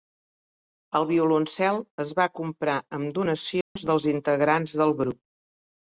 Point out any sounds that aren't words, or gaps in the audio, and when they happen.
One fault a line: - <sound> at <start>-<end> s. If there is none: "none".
- dropout at 3.6-3.8 s